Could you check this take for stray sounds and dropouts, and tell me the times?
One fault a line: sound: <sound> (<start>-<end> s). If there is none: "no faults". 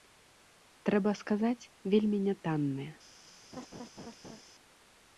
sound: laugh (3.5-4.4 s)